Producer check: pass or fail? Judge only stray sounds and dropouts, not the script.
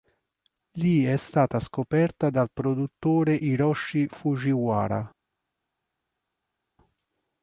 pass